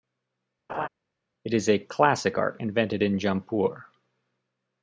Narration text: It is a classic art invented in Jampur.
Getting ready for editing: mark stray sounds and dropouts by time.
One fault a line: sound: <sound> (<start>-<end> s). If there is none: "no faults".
sound: laugh (0.7-0.9 s)